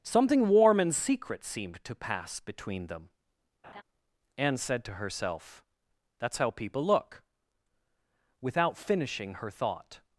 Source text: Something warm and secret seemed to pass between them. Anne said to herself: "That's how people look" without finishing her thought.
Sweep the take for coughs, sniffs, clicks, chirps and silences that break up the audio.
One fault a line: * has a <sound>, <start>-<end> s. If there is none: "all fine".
* has a laugh, 3.6-3.8 s